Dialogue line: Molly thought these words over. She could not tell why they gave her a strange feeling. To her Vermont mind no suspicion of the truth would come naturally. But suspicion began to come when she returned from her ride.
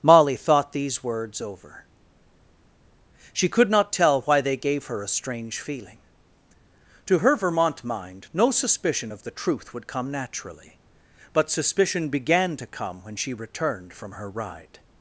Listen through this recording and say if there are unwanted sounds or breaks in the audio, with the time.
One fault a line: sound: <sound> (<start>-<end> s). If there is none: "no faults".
no faults